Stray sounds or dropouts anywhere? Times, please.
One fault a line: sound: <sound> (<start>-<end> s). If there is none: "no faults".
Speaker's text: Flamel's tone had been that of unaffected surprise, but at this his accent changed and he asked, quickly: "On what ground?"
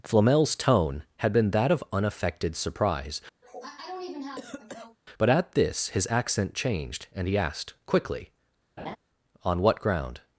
sound: cough (3.4-5.0 s)
sound: laugh (8.8-9.0 s)